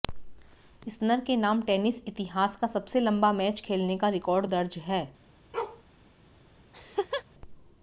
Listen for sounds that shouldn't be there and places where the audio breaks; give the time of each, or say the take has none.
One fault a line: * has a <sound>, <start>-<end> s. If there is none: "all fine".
* has a bark, 5.5-5.8 s
* has a laugh, 6.7-7.2 s